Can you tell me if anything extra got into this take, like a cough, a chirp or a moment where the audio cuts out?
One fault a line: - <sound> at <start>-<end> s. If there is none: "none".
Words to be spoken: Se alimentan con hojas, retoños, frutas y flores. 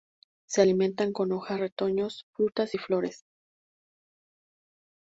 none